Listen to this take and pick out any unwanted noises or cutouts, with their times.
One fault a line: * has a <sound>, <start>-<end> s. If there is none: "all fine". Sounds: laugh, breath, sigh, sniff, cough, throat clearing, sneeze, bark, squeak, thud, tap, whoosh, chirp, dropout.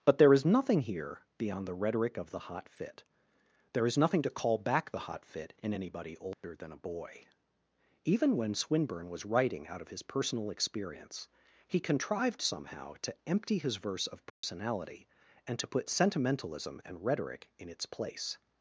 * has a dropout, 6.3-6.4 s
* has a dropout, 14.3-14.4 s